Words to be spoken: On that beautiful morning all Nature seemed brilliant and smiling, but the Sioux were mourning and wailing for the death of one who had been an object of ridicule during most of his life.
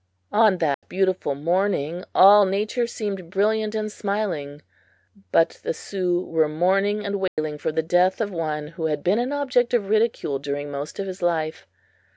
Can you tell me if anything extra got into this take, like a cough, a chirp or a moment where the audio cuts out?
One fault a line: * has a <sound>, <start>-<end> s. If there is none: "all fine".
* has a dropout, 0.7-0.8 s
* has a dropout, 7.3-7.4 s